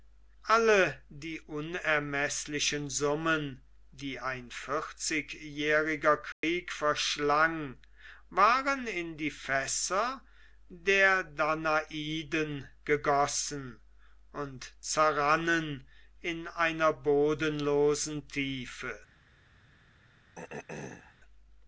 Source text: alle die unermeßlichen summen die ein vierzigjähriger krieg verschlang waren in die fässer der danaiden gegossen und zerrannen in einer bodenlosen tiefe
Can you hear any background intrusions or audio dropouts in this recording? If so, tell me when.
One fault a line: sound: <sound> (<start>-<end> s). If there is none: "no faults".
sound: dropout (6.3-6.4 s)
sound: throat clearing (20.4-21.1 s)